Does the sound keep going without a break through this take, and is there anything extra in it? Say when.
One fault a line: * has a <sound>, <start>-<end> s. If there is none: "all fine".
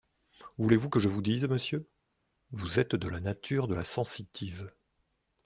all fine